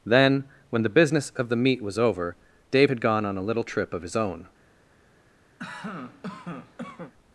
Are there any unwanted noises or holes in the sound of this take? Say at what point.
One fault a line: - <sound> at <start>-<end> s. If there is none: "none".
- cough at 5.6-7.1 s